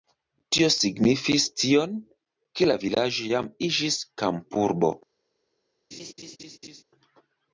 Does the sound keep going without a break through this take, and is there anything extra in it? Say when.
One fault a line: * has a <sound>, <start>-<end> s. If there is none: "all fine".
* has a laugh, 5.9-6.8 s